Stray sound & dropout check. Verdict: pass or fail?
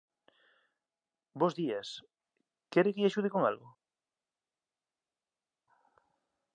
pass